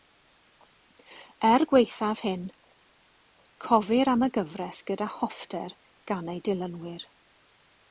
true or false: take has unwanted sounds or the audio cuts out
false